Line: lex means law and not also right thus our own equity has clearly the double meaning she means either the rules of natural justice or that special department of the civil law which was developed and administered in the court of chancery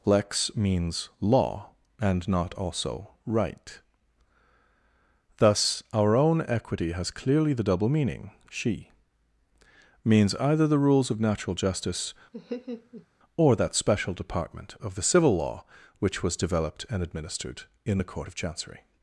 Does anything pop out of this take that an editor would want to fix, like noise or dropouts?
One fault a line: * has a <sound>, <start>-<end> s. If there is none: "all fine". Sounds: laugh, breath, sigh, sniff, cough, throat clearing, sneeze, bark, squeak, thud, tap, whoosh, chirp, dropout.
* has a laugh, 12.3-13.1 s